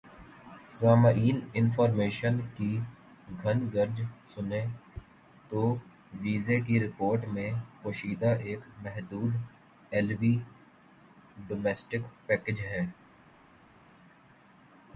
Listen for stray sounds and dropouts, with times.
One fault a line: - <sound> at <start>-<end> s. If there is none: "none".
none